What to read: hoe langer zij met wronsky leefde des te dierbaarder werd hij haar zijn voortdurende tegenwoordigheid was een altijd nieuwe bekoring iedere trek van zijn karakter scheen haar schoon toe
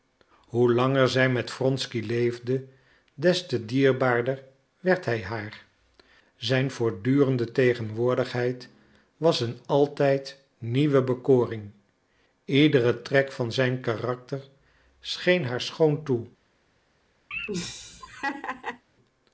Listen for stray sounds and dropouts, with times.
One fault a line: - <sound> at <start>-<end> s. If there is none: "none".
- laugh at 17.3-18.8 s